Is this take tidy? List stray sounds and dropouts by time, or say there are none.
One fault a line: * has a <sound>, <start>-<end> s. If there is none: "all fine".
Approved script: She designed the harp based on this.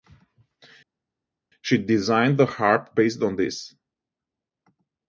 all fine